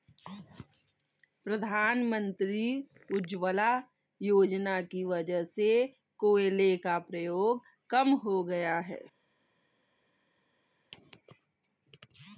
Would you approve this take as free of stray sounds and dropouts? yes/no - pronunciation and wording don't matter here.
yes